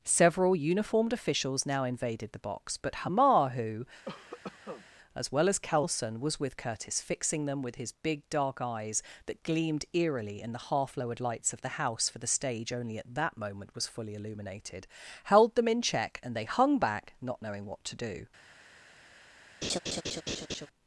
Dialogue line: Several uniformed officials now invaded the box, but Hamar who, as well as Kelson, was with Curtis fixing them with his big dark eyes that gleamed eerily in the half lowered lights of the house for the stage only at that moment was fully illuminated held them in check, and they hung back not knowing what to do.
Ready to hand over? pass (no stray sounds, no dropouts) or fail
fail